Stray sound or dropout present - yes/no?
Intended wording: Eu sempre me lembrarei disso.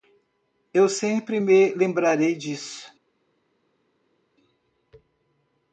no